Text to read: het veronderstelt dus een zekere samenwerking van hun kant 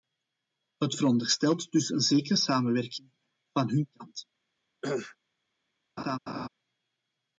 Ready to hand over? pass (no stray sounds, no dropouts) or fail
fail